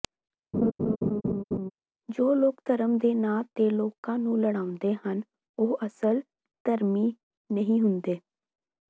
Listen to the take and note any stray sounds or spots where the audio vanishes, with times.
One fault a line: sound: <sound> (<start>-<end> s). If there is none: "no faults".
sound: laugh (0.5-1.7 s)